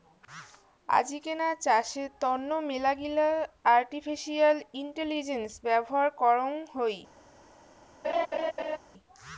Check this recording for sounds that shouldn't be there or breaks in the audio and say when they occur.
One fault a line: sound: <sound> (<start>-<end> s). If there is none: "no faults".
sound: laugh (8.0-8.8 s)